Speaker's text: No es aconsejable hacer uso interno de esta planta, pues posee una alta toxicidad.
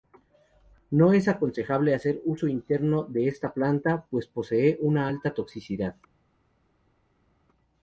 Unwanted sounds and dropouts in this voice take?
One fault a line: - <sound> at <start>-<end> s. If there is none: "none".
none